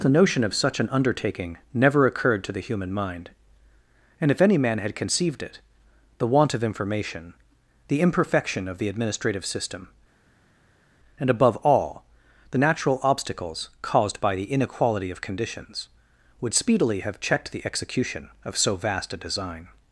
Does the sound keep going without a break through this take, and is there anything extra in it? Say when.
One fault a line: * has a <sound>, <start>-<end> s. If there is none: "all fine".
all fine